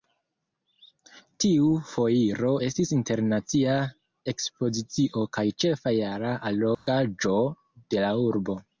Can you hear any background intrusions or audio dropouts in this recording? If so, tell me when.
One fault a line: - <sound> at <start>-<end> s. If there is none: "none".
- dropout at 6.7-6.9 s